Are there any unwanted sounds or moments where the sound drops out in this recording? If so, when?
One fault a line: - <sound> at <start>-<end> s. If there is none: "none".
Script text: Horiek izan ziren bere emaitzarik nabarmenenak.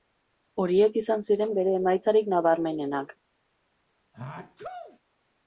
- sneeze at 4.1-5.0 s